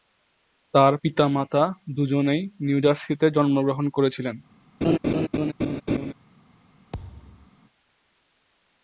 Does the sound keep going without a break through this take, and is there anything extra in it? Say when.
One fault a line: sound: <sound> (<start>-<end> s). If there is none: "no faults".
sound: laugh (4.8-6.1 s)
sound: thud (6.9-7.5 s)